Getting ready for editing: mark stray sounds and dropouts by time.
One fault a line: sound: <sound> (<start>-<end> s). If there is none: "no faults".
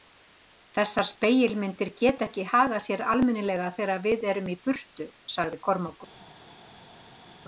no faults